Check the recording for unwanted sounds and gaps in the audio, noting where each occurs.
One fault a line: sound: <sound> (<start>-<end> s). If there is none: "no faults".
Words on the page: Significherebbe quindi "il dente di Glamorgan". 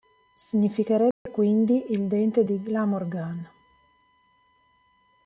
sound: dropout (1.1-1.3 s)